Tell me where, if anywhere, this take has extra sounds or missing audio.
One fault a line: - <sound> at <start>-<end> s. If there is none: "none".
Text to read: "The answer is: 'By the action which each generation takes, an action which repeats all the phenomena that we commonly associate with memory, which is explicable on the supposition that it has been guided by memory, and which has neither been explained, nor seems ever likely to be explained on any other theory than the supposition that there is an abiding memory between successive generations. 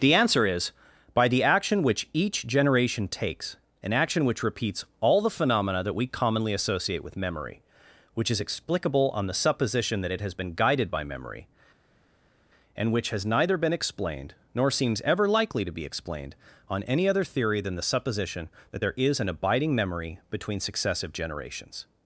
none